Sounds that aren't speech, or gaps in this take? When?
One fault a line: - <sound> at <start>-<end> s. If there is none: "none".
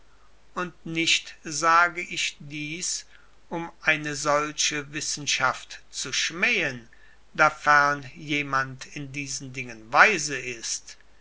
none